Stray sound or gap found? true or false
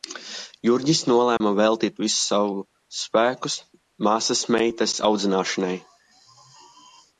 true